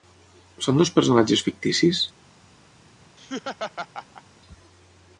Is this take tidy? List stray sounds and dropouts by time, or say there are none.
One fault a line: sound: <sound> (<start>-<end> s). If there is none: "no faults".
sound: laugh (3.2-4.2 s)